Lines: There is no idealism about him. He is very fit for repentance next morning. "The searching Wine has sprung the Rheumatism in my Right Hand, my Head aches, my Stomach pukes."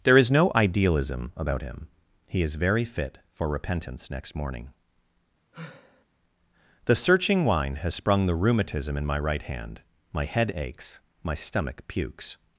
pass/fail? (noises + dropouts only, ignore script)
fail